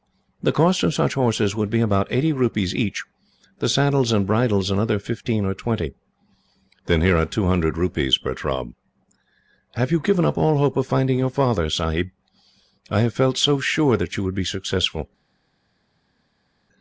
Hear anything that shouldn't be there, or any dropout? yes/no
no